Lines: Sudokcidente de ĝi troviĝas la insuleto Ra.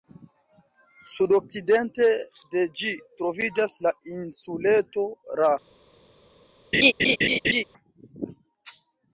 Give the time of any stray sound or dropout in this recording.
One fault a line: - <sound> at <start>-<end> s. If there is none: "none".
- laugh at 6.7-7.6 s